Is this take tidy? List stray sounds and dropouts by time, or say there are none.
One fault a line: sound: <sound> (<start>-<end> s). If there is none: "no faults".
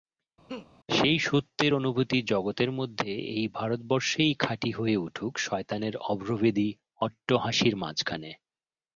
sound: laugh (0.5-0.7 s)